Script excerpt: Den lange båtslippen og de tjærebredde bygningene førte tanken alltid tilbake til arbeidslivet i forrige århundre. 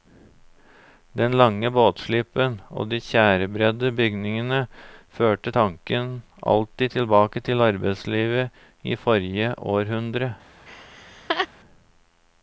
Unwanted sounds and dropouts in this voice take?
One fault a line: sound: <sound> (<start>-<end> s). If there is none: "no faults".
sound: laugh (10.7-11.5 s)